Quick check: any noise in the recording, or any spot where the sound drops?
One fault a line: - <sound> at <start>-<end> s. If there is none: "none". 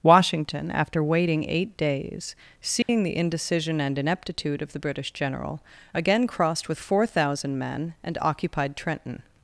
- dropout at 2.8-2.9 s